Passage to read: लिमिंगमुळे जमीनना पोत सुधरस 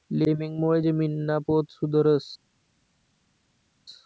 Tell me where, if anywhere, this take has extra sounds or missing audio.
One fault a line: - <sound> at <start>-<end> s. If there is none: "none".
none